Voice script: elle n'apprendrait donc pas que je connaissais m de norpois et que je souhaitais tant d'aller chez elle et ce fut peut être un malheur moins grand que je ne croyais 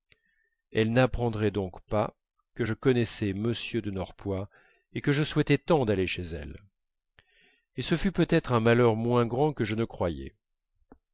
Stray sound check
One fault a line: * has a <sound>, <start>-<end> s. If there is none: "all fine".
all fine